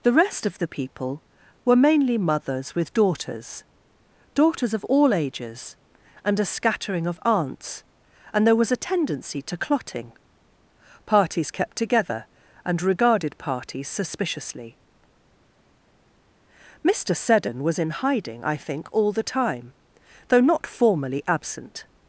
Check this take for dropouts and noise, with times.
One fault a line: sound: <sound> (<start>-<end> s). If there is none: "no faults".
no faults